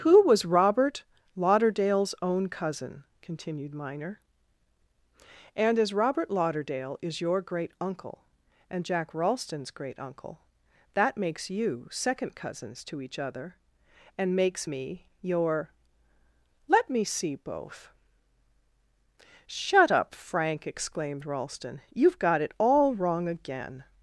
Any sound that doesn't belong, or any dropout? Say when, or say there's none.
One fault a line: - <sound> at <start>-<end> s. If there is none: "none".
none